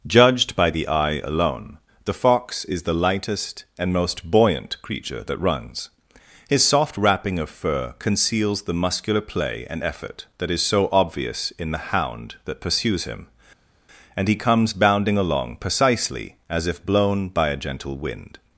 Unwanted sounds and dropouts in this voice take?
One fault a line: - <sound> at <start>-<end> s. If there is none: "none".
none